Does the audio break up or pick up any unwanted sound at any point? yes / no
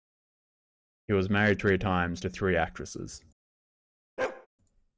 yes